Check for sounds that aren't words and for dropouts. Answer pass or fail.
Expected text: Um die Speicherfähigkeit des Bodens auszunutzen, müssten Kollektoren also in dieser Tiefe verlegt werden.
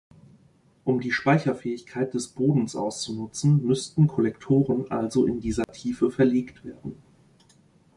fail